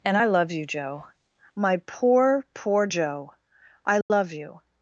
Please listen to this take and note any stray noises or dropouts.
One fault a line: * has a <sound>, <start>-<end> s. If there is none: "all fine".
* has a dropout, 4.0-4.1 s